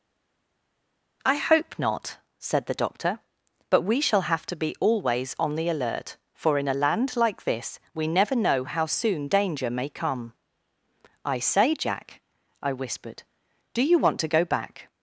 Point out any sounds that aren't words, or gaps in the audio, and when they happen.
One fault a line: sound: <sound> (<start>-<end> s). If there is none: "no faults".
no faults